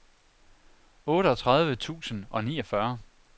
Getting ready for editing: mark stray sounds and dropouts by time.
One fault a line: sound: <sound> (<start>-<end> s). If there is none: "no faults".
no faults